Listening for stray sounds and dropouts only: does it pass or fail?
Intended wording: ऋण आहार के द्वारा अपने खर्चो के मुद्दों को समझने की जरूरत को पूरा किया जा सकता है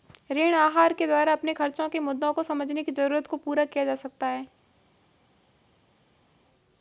pass